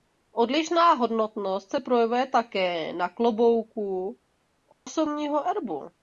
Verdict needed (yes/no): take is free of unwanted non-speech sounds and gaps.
no